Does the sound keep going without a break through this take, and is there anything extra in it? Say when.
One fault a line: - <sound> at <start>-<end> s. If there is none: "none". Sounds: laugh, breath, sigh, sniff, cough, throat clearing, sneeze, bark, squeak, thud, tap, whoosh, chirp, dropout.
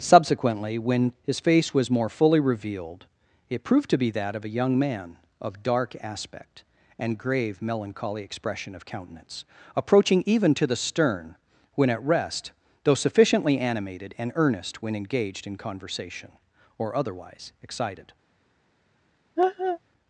- laugh at 19.4-19.8 s